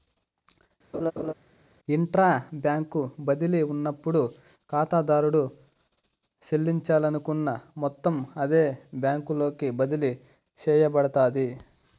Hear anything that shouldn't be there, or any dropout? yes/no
yes